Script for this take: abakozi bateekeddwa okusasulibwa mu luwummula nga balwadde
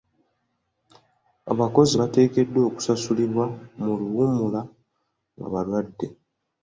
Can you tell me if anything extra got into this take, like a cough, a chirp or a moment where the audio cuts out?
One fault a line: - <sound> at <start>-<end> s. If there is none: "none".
none